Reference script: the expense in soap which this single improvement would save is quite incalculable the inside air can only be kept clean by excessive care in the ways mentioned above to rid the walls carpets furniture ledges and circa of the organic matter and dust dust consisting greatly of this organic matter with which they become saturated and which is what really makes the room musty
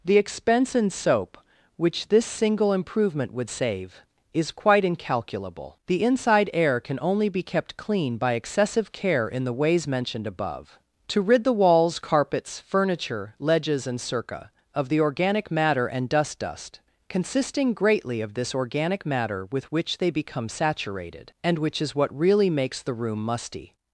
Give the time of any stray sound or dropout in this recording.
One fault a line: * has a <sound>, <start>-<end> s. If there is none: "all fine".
all fine